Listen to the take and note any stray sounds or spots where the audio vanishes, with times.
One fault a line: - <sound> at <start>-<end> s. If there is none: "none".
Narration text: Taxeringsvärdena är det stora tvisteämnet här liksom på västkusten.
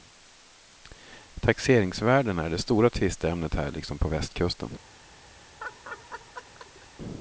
- laugh at 5.6-6.9 s